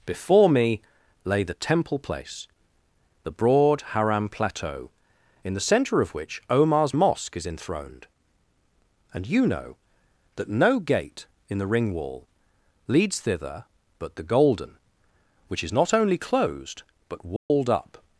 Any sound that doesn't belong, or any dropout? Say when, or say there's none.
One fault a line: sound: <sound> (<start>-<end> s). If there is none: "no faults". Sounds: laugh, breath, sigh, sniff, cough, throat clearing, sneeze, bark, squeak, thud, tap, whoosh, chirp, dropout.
sound: dropout (17.4-17.5 s)